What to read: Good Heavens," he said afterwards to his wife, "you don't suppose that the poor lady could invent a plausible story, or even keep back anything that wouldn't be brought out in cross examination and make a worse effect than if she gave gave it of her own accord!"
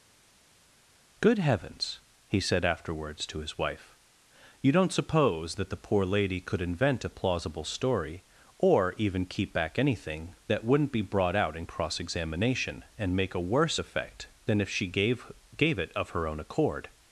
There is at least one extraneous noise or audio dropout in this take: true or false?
false